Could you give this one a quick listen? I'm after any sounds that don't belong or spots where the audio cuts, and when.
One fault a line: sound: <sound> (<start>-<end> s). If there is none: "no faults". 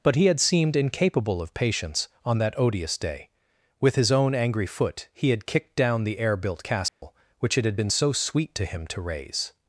sound: dropout (6.9-7.0 s)